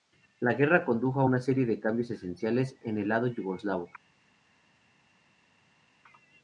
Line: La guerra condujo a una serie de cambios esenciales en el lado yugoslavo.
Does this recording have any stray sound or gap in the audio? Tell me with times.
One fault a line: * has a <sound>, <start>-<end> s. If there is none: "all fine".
all fine